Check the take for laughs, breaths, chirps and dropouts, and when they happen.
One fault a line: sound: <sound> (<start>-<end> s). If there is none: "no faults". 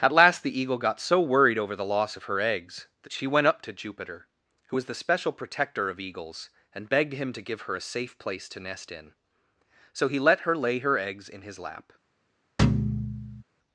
sound: thud (12.6-13.4 s)